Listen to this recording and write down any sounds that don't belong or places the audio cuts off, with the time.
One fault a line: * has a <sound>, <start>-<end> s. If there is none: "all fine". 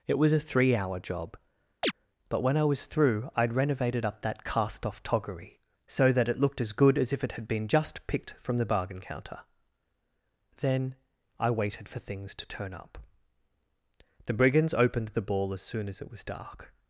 * has a chirp, 1.8-1.9 s